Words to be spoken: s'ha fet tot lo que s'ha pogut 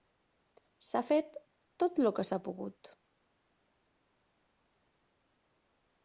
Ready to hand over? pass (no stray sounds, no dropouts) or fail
pass